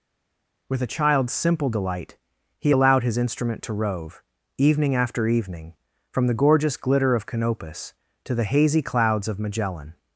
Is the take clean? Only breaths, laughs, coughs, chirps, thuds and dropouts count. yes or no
yes